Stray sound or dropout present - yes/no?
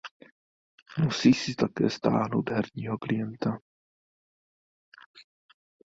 no